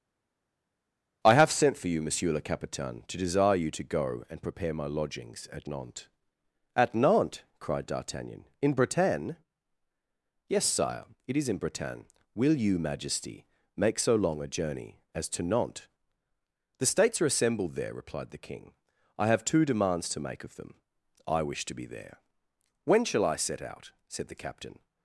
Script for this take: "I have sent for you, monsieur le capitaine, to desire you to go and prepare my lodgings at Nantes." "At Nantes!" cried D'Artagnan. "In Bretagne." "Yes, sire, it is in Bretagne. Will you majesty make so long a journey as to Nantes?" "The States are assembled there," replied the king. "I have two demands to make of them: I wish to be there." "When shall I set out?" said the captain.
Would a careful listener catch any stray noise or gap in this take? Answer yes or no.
no